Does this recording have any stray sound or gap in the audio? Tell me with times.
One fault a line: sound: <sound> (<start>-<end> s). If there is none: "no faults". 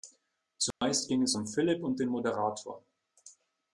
sound: dropout (0.7-0.8 s)